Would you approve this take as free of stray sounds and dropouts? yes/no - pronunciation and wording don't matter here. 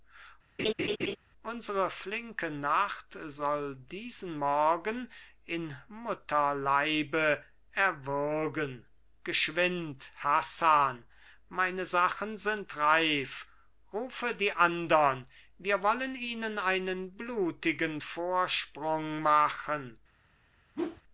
no